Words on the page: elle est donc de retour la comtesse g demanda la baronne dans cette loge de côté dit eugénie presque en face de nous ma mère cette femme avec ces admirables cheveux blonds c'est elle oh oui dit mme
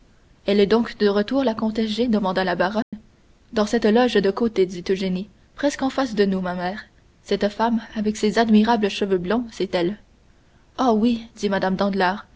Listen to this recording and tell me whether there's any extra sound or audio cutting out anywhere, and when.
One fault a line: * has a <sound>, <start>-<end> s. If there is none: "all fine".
* has a dropout, 2.8-2.9 s